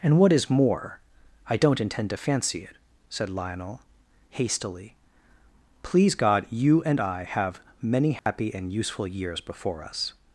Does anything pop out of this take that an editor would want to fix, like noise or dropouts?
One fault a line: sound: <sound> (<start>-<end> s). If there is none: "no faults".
sound: dropout (8.2-8.3 s)